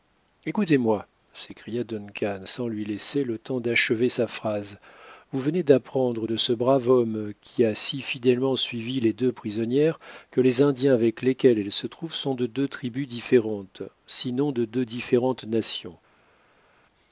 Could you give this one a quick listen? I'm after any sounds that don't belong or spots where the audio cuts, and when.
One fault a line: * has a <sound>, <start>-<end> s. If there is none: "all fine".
all fine